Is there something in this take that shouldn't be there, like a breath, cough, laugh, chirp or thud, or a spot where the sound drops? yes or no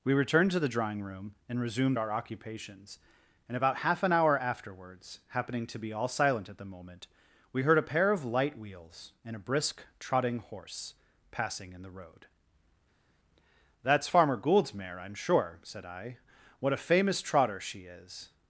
no